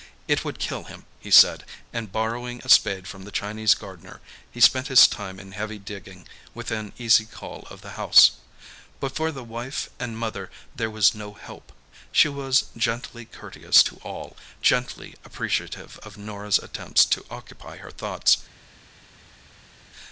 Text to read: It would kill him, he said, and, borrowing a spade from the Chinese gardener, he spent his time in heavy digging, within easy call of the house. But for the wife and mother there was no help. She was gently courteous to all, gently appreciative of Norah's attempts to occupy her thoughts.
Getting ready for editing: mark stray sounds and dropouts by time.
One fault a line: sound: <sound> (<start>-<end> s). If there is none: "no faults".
no faults